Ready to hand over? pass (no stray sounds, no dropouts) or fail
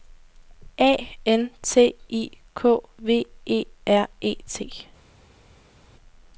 pass